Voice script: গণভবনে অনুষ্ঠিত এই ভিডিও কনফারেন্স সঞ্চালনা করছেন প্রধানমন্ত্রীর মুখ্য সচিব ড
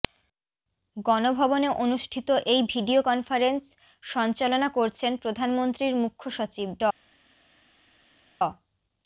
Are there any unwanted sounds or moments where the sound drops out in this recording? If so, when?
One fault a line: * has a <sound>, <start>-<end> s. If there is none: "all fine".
all fine